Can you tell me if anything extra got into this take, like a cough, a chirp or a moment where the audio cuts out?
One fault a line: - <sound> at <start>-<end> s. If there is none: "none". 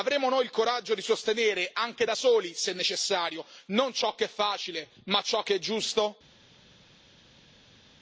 none